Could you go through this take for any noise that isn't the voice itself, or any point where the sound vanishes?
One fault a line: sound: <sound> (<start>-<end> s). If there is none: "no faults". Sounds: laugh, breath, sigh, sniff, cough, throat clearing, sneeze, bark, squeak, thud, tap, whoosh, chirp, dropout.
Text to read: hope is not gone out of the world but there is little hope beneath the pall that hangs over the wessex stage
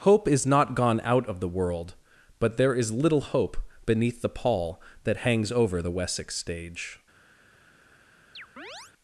sound: chirp (8.3-8.9 s)